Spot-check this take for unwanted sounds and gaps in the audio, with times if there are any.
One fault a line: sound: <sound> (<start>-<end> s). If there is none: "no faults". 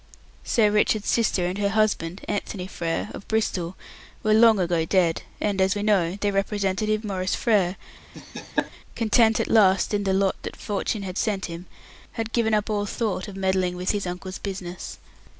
sound: laugh (8.1-8.7 s)